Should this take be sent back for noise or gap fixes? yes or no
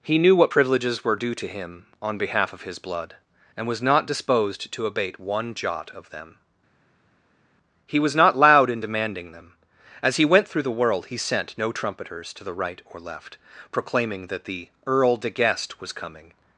no